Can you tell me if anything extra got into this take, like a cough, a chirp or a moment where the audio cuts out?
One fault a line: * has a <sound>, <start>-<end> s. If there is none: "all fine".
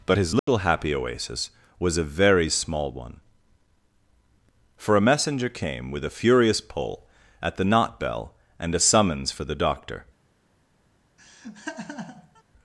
* has a dropout, 0.4-0.5 s
* has a laugh, 11.2-12.4 s